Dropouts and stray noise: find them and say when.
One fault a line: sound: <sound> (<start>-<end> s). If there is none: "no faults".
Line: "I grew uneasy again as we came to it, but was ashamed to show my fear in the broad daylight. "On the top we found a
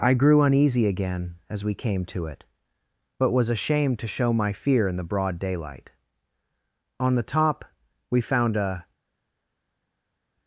no faults